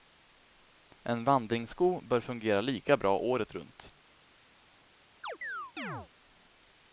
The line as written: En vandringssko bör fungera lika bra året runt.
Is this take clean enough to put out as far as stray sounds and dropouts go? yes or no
no